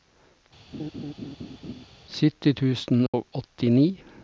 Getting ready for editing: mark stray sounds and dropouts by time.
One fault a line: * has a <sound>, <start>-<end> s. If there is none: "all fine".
* has a laugh, 0.7-1.9 s
* has a dropout, 3.1-3.1 s